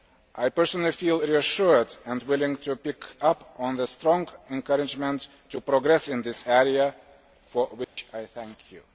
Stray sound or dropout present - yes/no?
yes